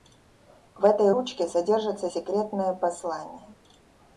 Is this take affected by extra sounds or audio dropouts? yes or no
no